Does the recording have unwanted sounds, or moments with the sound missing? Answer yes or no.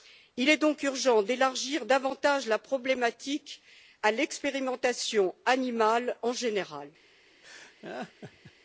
yes